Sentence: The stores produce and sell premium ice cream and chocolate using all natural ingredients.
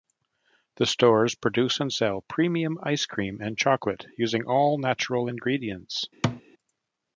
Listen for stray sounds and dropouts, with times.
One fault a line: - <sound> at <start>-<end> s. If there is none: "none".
- thud at 6.2-6.4 s